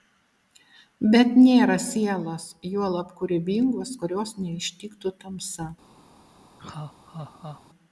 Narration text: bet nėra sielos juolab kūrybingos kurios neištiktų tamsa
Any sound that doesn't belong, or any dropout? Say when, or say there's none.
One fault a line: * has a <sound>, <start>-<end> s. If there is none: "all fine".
* has a laugh, 6.6-7.6 s